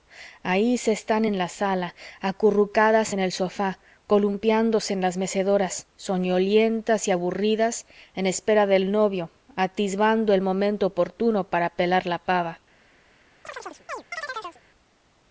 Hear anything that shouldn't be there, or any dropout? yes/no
yes